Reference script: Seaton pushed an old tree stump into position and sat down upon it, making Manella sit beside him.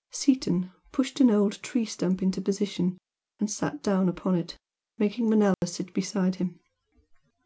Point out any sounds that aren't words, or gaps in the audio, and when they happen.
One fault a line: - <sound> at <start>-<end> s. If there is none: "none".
- dropout at 5.5-5.6 s